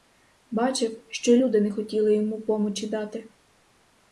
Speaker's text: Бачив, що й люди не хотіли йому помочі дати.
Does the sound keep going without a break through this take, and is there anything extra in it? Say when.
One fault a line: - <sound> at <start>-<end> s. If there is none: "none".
none